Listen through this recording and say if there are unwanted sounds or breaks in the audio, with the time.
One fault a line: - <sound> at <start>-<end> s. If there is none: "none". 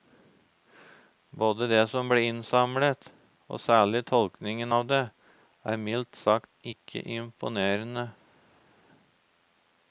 none